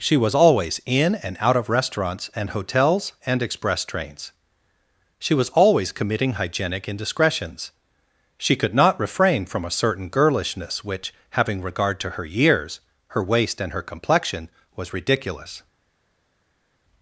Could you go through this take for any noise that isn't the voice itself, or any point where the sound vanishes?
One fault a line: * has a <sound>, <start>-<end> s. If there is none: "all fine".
all fine